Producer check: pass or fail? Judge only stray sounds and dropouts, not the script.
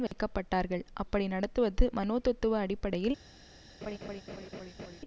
fail